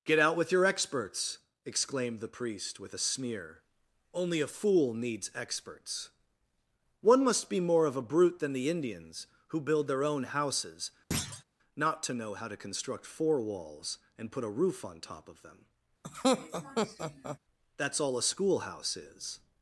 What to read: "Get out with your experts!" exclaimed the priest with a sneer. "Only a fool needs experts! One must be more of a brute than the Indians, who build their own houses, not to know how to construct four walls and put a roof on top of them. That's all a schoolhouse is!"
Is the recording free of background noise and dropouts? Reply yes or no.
no